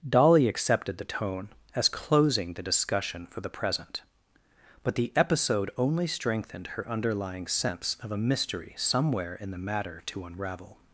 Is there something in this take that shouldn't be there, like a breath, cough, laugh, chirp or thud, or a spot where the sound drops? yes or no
no